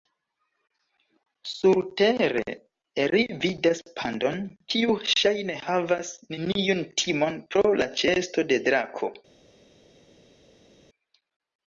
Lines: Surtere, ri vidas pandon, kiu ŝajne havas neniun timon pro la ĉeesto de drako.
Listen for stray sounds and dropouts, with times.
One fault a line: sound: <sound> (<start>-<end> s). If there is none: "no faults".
no faults